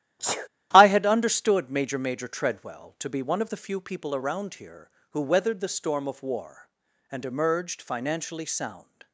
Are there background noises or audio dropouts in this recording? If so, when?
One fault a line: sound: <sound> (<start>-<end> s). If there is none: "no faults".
sound: sneeze (0.2-0.5 s)